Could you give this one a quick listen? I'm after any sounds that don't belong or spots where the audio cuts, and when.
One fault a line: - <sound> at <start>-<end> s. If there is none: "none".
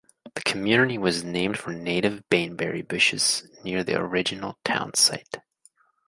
none